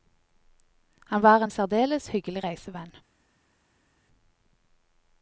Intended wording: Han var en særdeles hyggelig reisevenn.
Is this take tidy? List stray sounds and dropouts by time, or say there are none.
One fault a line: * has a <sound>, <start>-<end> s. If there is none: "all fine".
all fine